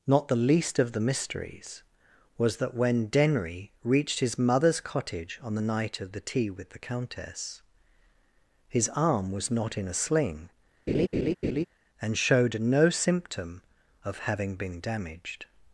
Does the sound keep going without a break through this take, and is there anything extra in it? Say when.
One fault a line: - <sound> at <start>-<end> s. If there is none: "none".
- laugh at 10.9-11.7 s